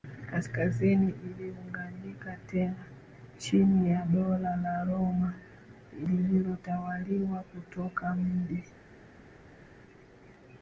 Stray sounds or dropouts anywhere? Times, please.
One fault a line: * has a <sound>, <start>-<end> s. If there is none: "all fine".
all fine